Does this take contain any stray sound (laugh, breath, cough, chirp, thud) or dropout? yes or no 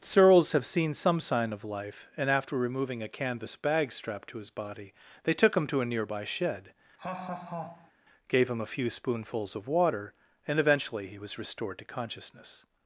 yes